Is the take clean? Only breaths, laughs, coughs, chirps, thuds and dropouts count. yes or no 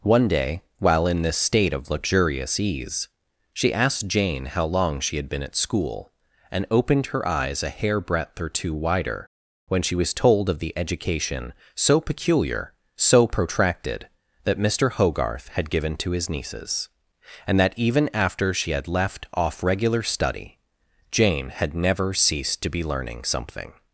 yes